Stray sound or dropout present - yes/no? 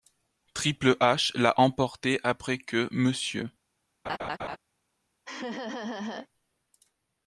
yes